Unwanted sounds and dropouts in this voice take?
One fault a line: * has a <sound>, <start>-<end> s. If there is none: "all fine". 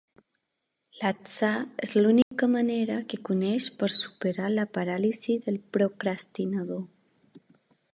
* has a dropout, 2.2-2.3 s